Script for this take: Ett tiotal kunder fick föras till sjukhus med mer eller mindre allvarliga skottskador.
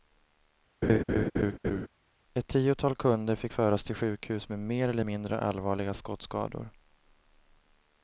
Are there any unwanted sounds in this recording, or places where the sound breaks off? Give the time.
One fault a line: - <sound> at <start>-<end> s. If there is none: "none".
- laugh at 0.8-1.9 s